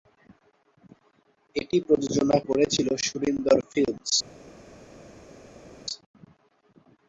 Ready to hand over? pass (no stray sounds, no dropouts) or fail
pass